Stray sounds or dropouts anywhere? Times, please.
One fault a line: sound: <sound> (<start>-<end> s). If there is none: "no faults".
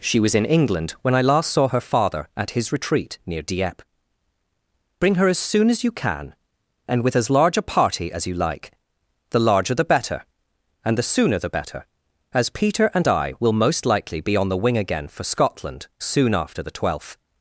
no faults